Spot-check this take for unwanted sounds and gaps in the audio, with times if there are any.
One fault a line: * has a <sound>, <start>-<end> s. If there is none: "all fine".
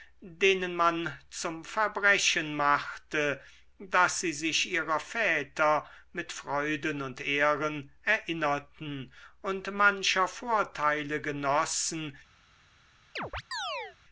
* has a chirp, 13.2-14.0 s